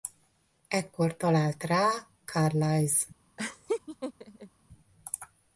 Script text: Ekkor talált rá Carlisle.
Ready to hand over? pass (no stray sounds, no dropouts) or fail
fail